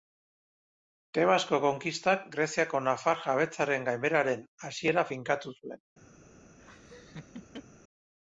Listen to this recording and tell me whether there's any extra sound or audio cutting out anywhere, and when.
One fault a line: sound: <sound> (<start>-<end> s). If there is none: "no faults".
sound: laugh (6.6-7.6 s)